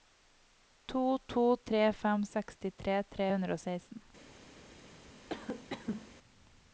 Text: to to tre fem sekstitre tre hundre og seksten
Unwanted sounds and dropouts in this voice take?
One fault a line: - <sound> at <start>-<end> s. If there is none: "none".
- cough at 5.3-6.1 s